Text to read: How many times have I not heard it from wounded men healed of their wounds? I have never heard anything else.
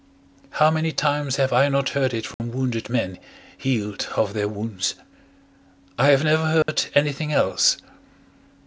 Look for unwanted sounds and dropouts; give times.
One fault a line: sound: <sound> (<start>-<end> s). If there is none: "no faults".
sound: dropout (2.3-2.4 s)
sound: dropout (6.6-6.7 s)